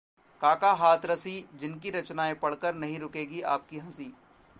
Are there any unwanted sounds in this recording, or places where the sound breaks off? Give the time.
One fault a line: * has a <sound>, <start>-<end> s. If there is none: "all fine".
all fine